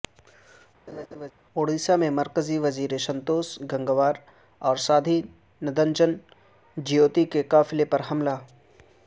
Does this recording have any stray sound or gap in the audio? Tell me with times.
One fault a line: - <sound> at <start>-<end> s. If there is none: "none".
- laugh at 0.9-1.3 s